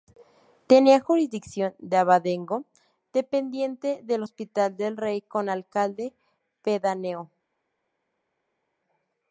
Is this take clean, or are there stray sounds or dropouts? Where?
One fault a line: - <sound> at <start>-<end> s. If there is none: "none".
none